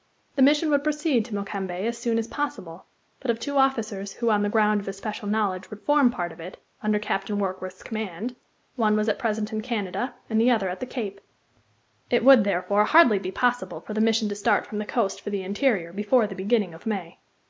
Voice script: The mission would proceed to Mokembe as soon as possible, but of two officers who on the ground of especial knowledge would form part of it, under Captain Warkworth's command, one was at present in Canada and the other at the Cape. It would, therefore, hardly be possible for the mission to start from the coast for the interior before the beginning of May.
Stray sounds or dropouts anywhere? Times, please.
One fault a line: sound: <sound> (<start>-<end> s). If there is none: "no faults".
no faults